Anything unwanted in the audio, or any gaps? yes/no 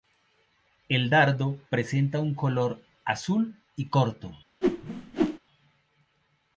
yes